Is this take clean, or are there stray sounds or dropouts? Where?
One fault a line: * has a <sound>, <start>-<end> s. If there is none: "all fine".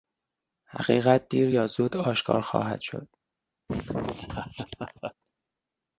* has a laugh, 3.7-5.1 s